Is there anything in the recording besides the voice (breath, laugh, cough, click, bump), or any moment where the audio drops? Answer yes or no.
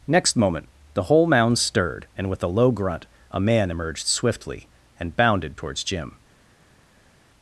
no